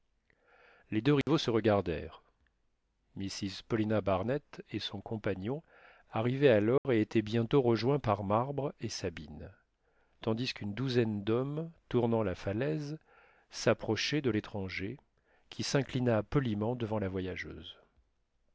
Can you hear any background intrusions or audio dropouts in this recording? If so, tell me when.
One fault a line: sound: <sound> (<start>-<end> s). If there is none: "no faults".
sound: dropout (1.2-1.3 s)
sound: dropout (6.8-6.8 s)